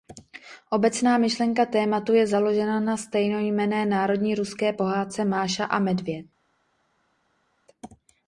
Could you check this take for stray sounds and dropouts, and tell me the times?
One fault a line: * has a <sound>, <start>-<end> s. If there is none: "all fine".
all fine